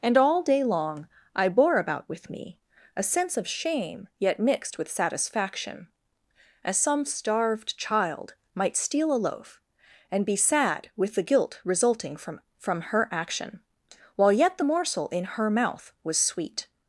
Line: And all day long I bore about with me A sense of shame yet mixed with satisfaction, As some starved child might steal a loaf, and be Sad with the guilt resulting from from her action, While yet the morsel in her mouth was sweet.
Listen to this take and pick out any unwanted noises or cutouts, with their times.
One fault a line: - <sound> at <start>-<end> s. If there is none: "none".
none